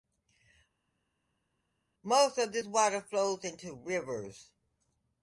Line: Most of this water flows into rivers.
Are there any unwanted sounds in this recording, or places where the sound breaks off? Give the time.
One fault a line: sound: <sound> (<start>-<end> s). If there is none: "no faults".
no faults